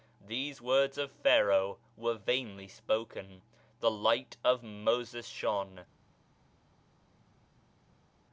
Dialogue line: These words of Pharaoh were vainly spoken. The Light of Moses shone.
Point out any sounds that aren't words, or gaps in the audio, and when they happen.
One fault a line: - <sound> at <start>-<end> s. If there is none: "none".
none